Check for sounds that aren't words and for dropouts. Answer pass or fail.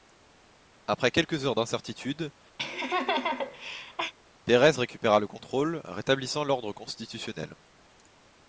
fail